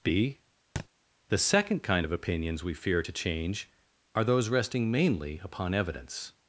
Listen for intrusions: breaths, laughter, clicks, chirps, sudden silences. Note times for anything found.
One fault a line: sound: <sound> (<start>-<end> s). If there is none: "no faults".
sound: thud (0.8-0.9 s)